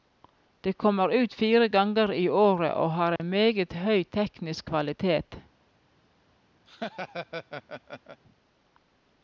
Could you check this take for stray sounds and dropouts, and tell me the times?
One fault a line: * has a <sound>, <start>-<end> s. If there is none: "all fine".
* has a dropout, 3.2-3.2 s
* has a laugh, 6.6-8.2 s